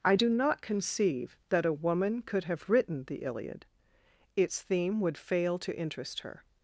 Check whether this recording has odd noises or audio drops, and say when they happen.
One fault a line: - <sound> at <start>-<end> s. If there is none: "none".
none